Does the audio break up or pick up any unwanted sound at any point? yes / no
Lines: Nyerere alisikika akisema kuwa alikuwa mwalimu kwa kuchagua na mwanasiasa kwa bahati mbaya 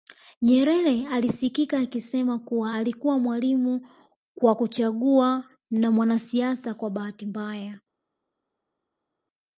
no